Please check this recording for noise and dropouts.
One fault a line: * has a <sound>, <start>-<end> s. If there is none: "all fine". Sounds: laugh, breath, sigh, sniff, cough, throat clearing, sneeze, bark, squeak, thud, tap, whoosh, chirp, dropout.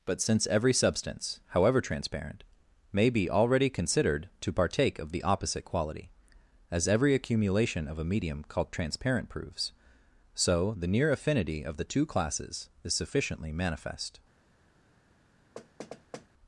* has a thud, 15.6-16.3 s